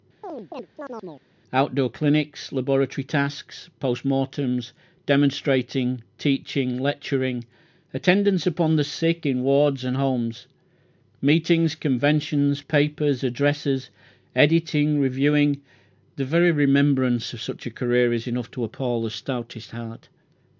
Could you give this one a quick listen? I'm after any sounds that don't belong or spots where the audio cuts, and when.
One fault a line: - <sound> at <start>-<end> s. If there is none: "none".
- chirp at 0.2-1.3 s